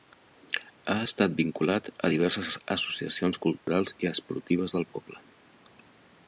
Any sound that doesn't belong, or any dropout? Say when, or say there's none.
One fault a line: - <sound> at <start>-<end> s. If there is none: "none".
- dropout at 3.6-3.7 s